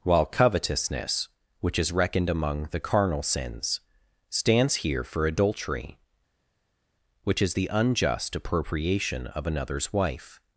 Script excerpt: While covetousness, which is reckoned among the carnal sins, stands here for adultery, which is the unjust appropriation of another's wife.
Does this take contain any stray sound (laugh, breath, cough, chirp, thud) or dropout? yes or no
no